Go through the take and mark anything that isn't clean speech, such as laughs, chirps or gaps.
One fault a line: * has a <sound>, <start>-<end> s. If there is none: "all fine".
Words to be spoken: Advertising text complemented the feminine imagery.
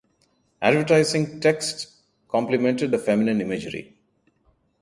all fine